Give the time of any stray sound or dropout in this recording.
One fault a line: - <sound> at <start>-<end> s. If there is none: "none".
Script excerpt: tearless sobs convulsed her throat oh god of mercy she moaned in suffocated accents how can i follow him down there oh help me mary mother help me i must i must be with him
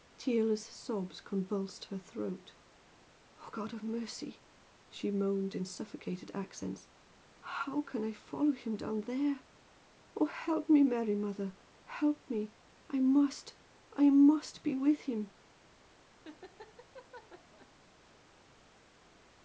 - laugh at 16.2-17.7 s